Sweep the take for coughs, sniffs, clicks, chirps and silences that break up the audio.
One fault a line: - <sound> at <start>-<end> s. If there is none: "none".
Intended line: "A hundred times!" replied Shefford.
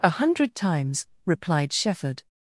none